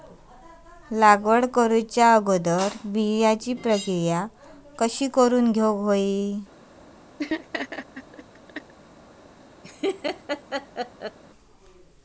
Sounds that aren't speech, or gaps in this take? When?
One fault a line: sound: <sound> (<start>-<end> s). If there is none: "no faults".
sound: laugh (7.2-8.7 s)
sound: laugh (9.6-11.2 s)